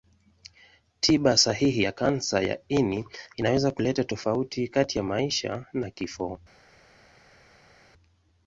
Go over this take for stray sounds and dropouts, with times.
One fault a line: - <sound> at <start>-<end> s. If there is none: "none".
none